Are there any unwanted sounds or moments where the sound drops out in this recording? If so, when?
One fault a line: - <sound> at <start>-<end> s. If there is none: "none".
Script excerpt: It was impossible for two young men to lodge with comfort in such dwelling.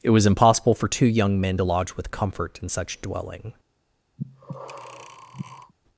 - breath at 4.2-5.7 s